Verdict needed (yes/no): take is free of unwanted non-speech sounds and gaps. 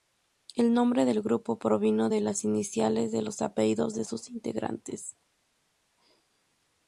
yes